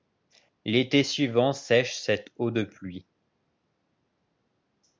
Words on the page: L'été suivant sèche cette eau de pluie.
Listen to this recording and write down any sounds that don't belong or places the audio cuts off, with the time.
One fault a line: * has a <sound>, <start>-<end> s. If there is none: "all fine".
all fine